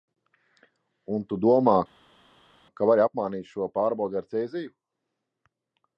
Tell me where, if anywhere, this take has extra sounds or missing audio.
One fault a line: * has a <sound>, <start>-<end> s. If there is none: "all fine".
all fine